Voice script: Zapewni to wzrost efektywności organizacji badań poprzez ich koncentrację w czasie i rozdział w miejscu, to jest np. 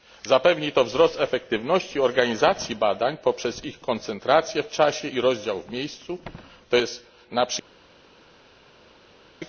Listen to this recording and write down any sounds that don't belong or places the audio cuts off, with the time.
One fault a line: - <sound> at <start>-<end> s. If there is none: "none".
none